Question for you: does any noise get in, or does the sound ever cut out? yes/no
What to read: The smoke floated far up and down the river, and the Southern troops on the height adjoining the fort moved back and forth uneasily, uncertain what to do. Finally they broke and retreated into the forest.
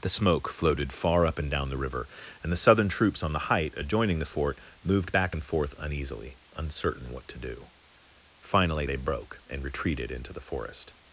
no